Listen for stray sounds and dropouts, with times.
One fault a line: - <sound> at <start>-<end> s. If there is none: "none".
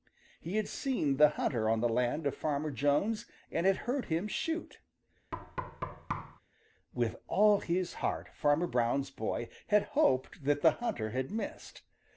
- thud at 5.3-6.4 s